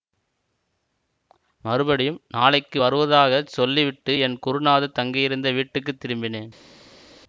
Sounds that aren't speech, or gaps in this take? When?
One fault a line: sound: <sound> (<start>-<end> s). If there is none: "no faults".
no faults